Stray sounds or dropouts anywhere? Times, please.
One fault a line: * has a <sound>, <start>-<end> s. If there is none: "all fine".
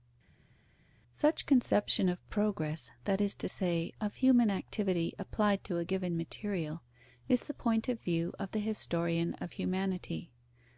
all fine